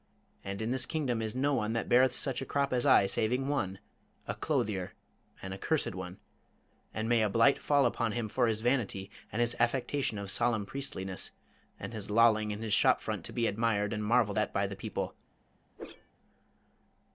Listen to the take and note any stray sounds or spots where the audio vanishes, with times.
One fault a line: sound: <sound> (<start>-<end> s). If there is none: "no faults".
sound: whoosh (15.8-16.1 s)